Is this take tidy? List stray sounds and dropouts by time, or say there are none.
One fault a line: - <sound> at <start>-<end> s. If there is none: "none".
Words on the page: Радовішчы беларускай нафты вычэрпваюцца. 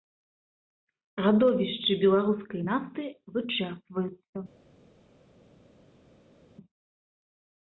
none